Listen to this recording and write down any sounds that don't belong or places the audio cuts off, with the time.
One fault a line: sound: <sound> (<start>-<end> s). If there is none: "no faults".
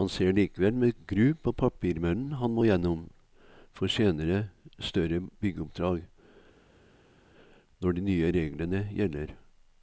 no faults